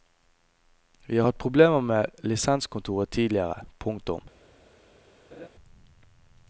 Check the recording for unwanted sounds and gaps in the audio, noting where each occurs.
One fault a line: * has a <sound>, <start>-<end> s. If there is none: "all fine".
* has a laugh, 5.3-5.5 s